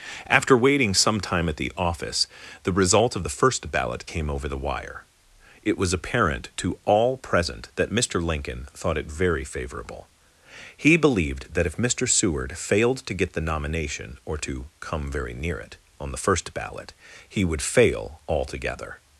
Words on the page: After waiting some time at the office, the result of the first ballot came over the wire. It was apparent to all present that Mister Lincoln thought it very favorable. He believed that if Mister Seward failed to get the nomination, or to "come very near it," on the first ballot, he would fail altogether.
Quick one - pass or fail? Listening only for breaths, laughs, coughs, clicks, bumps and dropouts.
pass